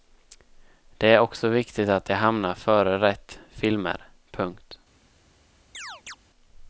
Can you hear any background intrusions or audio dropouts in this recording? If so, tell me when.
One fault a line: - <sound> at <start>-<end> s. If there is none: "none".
- chirp at 5.7-6.2 s